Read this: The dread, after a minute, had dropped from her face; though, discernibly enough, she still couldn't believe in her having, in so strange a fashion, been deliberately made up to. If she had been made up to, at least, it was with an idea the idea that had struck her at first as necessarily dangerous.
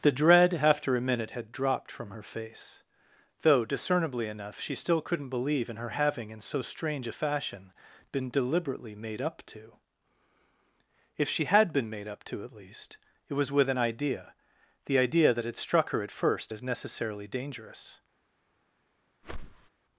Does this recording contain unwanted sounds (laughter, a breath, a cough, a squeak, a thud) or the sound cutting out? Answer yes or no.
yes